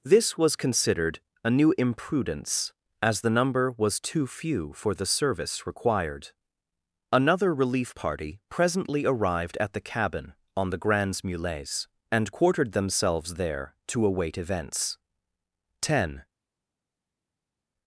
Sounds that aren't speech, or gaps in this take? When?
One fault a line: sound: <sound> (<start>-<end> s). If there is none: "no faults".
no faults